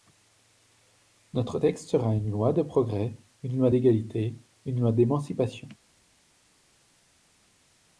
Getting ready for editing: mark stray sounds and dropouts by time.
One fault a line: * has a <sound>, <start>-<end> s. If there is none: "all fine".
all fine